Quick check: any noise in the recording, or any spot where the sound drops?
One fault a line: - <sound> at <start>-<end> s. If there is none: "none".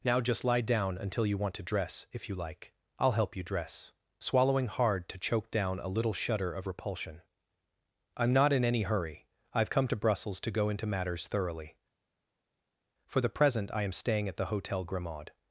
none